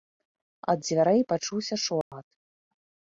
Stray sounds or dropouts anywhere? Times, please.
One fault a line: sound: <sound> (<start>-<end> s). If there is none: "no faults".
sound: dropout (2.0-2.1 s)